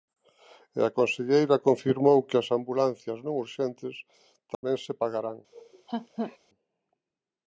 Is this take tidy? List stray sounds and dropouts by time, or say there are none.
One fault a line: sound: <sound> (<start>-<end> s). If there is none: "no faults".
sound: dropout (4.5-4.6 s)
sound: laugh (5.5-6.4 s)